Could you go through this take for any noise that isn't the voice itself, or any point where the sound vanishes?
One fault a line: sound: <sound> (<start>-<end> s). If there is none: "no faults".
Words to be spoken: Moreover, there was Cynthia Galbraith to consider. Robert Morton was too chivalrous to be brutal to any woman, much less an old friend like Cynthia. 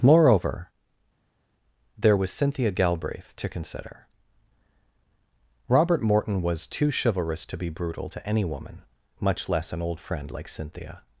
no faults